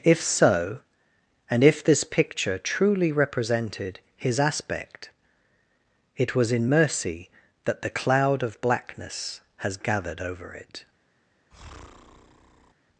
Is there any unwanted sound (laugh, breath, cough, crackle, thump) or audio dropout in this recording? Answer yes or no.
yes